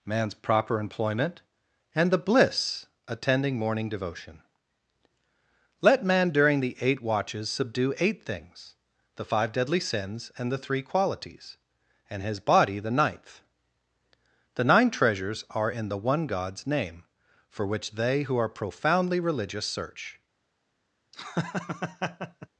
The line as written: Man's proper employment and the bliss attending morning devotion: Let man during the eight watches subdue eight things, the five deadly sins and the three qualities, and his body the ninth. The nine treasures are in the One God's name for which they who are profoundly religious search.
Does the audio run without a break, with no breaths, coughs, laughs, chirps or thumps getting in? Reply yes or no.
no